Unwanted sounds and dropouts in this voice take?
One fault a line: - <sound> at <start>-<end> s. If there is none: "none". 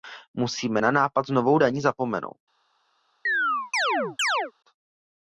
- chirp at 3.3-4.5 s